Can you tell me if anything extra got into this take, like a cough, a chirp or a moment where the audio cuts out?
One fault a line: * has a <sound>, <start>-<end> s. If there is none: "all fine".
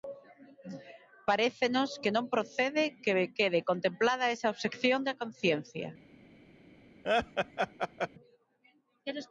* has a laugh, 7.0-8.1 s